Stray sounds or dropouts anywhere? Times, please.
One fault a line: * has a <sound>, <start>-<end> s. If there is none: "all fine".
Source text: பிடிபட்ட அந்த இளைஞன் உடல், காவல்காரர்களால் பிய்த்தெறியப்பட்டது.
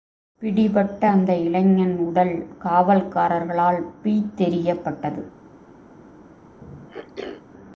* has a throat clearing, 6.6-7.4 s